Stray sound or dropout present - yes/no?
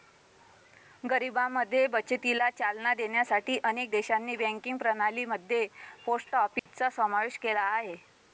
yes